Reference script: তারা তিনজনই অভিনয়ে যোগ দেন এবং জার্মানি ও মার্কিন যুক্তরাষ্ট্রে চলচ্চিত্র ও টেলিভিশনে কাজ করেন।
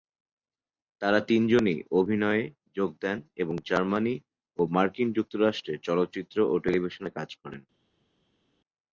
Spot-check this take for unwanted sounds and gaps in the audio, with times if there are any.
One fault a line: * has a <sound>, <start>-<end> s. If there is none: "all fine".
all fine